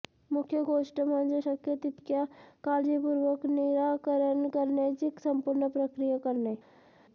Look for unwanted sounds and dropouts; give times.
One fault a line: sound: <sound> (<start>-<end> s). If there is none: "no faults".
no faults